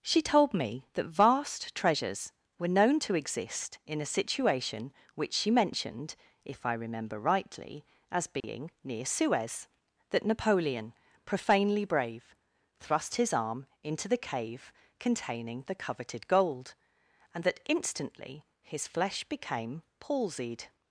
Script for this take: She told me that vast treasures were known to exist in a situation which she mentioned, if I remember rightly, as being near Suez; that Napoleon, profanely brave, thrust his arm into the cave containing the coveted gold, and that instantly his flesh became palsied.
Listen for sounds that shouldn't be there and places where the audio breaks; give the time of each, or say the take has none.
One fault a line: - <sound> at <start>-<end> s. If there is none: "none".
- dropout at 8.4-8.4 s